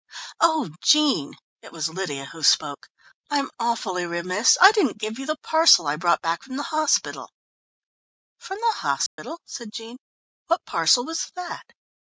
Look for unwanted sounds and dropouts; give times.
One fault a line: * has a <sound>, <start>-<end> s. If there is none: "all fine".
* has a dropout, 9.1-9.2 s